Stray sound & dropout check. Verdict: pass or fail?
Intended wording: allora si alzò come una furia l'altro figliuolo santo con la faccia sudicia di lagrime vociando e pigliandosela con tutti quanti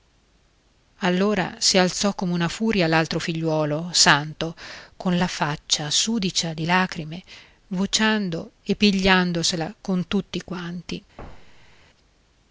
fail